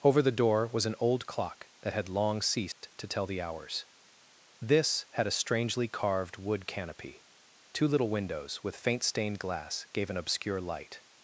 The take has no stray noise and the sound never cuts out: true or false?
false